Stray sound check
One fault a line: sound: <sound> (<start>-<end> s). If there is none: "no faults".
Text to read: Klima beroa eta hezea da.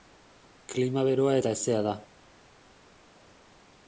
no faults